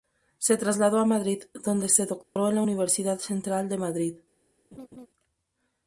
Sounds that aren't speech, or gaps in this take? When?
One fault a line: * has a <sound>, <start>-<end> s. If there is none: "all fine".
* has a dropout, 2.2-2.4 s
* has a laugh, 4.7-5.1 s